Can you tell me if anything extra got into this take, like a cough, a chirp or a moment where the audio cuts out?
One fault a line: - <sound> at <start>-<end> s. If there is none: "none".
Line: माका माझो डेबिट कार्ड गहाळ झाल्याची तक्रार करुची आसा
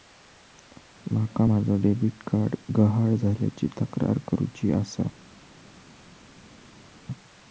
none